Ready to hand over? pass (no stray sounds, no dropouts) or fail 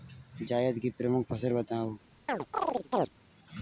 fail